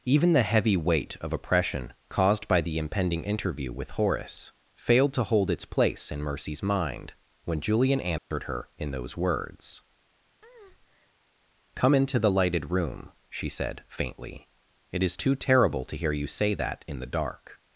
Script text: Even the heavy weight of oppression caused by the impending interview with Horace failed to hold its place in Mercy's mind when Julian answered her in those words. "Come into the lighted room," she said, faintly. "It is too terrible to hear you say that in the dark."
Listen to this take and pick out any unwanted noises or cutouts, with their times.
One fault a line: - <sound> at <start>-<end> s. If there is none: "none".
- dropout at 8.2-8.3 s
- breath at 10.4-11.1 s